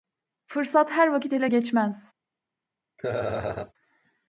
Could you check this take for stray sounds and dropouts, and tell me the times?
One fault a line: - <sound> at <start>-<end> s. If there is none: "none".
- laugh at 3.0-3.7 s